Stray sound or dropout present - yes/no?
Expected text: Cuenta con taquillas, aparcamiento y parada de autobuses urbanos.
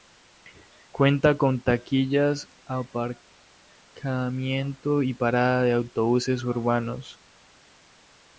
no